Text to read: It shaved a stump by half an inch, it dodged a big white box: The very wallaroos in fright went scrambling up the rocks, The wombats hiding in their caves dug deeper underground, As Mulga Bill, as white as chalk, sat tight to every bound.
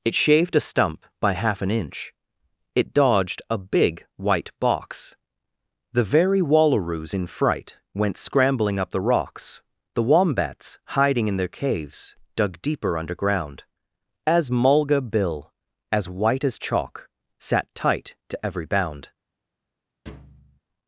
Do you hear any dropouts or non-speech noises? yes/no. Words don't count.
yes